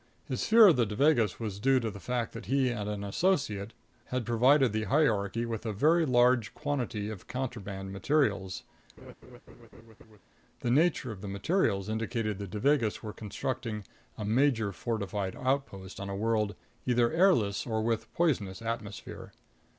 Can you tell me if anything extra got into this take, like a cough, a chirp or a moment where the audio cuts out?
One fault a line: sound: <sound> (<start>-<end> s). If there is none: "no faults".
sound: laugh (9.0-10.2 s)